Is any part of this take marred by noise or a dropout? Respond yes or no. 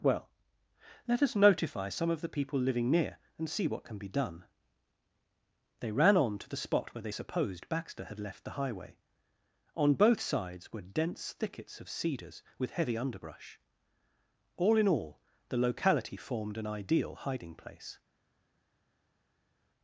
no